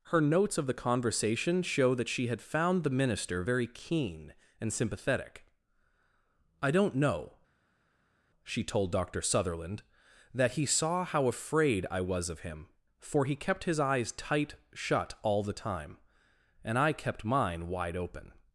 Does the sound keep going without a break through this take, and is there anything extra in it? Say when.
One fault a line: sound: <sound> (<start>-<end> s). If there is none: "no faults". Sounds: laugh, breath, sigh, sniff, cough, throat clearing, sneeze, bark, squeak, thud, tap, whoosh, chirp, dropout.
no faults